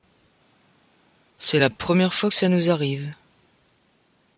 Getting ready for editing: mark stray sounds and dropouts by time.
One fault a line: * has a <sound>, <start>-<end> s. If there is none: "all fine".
all fine